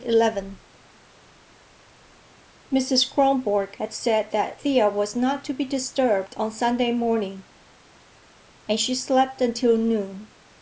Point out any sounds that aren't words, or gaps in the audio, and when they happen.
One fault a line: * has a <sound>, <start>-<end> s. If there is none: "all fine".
all fine